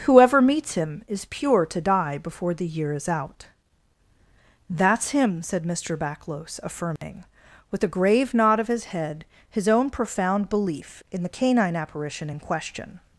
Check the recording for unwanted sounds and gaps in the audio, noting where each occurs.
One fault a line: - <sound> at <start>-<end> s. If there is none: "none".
- dropout at 7.0-7.0 s